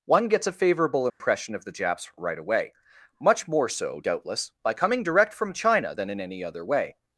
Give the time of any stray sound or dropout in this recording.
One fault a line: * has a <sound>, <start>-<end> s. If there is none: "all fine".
* has a dropout, 1.1-1.2 s